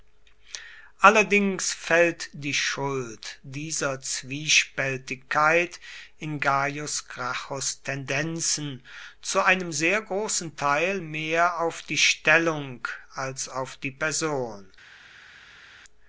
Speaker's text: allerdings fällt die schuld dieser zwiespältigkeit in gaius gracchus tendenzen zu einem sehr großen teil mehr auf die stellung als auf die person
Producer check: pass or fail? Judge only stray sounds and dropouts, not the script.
pass